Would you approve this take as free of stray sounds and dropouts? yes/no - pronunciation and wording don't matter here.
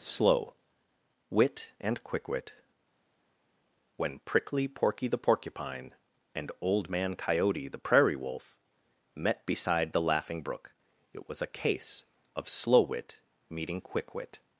yes